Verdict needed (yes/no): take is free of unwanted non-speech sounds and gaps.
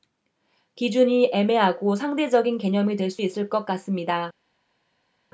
yes